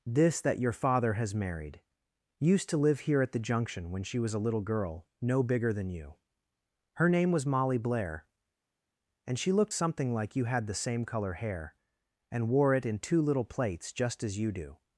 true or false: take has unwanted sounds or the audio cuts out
false